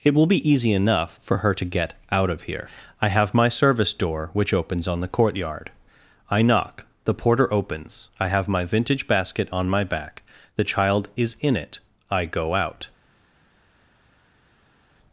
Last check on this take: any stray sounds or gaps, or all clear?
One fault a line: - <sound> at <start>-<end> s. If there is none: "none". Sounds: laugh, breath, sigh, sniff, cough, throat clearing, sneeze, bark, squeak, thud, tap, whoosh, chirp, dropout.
none